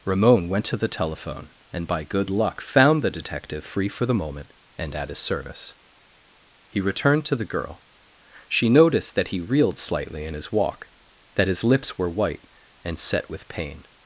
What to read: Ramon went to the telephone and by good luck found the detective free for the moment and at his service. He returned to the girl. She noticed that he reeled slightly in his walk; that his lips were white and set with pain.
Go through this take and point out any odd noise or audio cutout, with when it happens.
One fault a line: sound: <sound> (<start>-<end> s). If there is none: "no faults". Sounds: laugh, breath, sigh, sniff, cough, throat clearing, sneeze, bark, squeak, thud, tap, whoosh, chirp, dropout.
no faults